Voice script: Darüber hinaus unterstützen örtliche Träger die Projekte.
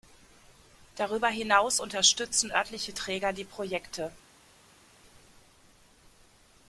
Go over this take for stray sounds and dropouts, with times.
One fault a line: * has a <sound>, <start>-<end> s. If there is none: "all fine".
all fine